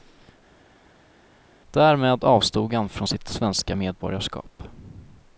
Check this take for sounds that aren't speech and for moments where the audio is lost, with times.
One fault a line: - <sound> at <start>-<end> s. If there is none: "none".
none